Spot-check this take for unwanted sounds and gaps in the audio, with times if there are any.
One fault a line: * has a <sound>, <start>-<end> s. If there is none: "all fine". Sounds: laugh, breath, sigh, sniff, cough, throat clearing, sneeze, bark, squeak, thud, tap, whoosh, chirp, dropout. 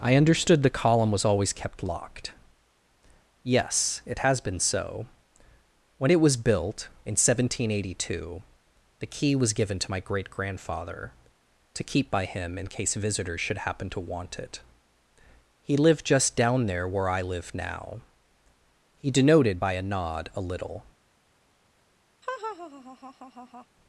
* has a laugh, 22.2-23.7 s